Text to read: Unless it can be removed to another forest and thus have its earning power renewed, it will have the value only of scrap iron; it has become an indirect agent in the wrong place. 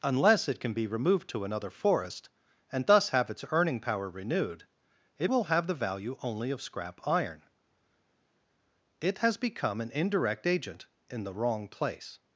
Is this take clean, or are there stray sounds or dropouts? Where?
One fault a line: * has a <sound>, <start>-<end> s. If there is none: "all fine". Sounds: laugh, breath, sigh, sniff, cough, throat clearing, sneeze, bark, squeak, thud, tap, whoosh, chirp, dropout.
all fine